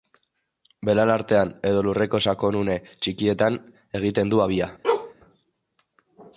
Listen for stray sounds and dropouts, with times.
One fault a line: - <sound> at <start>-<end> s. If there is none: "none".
- bark at 4.8-5.1 s